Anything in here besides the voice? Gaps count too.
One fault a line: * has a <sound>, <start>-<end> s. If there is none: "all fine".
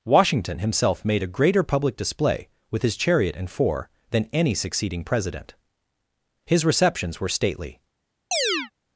* has a chirp, 8.3-8.7 s